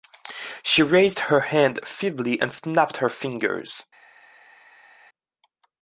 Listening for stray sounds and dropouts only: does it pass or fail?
pass